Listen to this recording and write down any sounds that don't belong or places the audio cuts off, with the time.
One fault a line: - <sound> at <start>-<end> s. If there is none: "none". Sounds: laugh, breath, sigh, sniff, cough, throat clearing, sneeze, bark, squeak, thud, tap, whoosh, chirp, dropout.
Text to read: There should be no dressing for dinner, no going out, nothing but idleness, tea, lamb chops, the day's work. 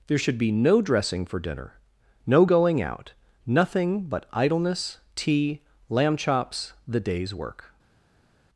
none